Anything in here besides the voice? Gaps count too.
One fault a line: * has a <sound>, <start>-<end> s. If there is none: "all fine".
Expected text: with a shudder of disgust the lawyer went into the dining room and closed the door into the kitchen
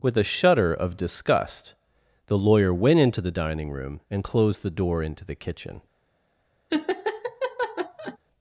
* has a laugh, 6.7-8.2 s